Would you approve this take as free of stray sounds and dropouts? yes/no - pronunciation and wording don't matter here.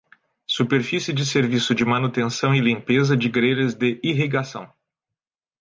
yes